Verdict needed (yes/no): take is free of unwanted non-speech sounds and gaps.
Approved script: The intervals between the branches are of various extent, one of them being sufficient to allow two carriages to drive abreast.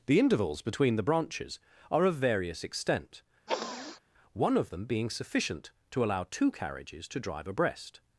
no